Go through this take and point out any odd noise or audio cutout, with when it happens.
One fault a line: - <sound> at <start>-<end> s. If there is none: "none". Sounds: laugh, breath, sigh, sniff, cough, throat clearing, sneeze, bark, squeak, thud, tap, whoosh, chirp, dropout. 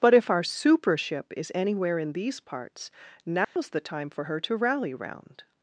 - dropout at 3.4-3.6 s